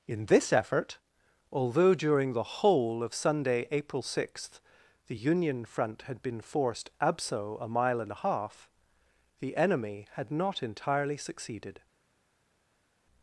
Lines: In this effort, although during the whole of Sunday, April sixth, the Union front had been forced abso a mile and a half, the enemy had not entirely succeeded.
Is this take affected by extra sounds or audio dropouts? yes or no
no